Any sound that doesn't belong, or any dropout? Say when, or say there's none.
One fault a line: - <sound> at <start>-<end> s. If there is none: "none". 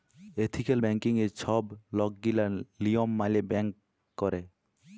none